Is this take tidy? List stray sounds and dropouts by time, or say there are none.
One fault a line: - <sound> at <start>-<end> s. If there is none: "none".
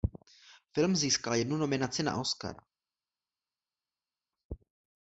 none